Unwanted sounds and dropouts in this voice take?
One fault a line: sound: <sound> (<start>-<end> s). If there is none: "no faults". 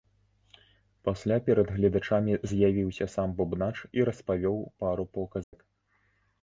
sound: dropout (5.4-5.5 s)